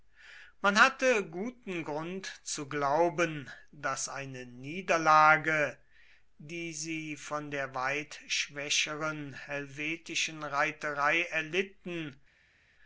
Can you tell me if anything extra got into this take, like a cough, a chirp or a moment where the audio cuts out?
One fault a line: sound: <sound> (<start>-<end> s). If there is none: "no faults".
no faults